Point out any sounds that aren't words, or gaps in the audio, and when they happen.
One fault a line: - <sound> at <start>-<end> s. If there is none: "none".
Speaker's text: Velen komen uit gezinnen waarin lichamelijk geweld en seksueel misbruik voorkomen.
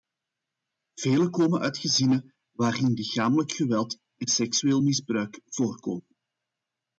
none